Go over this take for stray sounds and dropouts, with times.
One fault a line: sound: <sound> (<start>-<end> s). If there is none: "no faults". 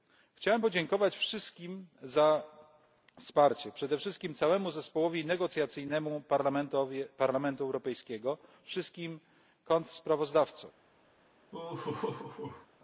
sound: laugh (11.5-12.7 s)